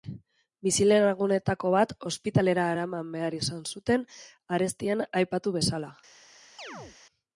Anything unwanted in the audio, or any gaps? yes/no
yes